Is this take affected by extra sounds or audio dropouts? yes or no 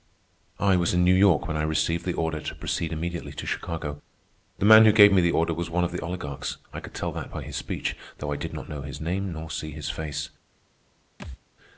yes